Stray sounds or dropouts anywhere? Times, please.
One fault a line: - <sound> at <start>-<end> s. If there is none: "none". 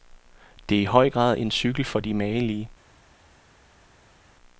none